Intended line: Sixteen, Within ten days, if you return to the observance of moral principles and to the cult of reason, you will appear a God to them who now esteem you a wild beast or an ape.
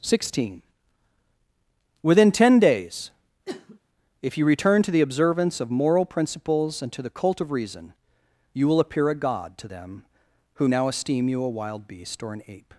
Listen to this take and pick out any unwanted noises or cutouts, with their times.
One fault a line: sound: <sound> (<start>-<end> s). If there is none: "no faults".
sound: sniff (3.4-3.8 s)